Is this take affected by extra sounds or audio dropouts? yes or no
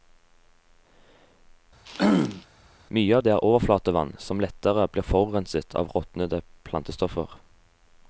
yes